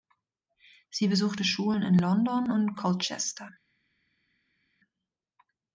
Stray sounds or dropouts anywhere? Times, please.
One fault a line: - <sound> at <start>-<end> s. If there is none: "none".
none